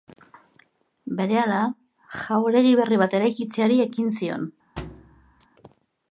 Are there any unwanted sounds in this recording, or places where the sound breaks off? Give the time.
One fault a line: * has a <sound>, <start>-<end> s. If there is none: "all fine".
* has a thud, 4.8-5.5 s